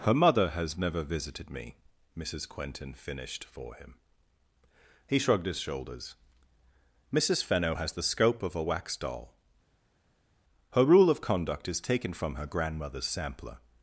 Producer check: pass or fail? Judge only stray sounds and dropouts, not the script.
pass